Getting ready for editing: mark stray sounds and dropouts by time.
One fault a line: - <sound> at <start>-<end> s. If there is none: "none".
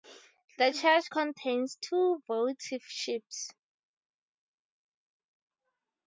none